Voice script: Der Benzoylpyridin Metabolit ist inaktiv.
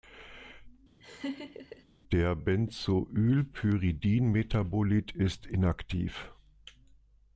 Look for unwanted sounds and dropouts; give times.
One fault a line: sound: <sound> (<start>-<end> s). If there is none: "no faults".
sound: laugh (1.0-1.9 s)